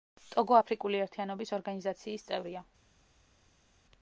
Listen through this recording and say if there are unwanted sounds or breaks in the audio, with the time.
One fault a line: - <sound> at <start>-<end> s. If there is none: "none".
none